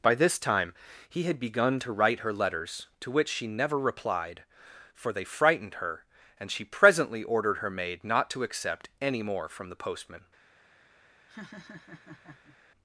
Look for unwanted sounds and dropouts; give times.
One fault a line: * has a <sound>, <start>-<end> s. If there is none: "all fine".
* has a laugh, 11.3-12.6 s